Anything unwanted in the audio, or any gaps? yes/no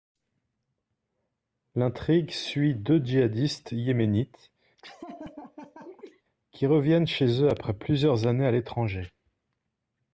yes